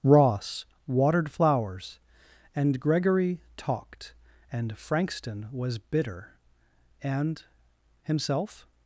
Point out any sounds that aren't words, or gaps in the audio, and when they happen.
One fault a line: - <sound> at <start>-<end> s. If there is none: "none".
none